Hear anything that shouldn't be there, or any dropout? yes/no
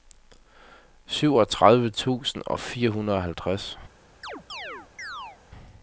yes